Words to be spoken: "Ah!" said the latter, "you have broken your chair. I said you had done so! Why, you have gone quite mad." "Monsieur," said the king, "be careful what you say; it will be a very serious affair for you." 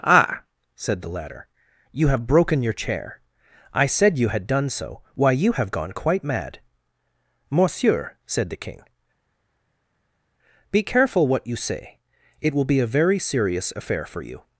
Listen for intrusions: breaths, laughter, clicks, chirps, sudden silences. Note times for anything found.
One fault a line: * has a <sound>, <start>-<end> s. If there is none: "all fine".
all fine